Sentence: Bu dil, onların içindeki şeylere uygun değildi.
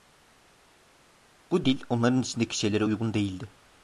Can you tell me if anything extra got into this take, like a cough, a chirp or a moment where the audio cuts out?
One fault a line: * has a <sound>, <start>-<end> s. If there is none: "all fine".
all fine